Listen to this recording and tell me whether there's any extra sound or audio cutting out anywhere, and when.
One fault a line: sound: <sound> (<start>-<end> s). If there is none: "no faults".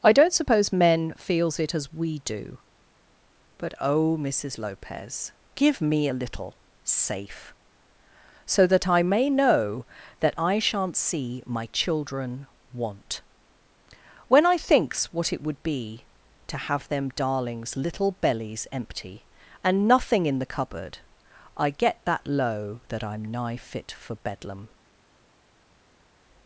no faults